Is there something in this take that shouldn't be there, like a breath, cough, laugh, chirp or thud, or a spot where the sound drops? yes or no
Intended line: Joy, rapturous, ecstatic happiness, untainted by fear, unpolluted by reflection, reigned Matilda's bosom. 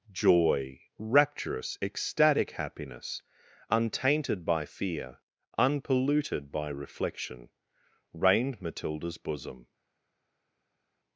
no